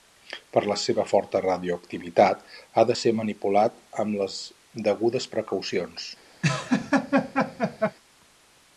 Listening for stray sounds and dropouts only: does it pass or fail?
fail